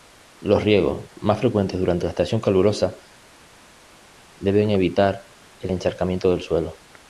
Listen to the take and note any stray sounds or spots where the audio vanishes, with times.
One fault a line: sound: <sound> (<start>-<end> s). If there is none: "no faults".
no faults